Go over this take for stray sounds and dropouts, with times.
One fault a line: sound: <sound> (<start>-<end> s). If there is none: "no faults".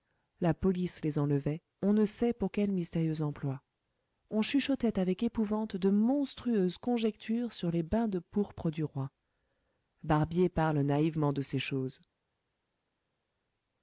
no faults